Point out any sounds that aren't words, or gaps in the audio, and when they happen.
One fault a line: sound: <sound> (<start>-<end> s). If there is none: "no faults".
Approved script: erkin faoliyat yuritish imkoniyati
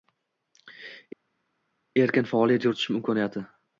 no faults